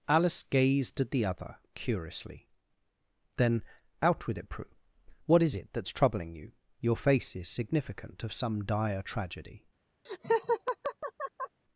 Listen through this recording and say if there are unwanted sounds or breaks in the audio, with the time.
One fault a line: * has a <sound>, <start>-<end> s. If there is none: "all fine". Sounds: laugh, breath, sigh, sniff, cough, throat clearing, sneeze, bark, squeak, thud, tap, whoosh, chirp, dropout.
* has a laugh, 10.1-11.6 s